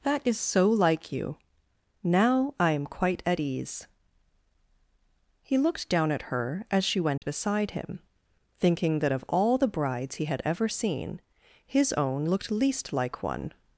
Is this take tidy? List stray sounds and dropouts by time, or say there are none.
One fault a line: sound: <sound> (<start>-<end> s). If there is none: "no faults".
sound: dropout (7.2-7.2 s)